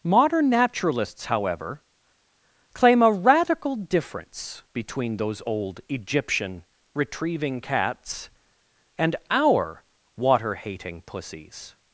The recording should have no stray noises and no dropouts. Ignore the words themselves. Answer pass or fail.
pass